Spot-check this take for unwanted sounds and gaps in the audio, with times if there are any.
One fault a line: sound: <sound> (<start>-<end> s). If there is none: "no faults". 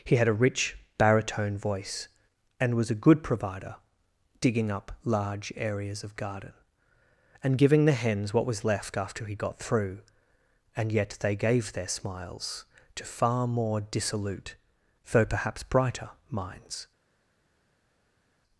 no faults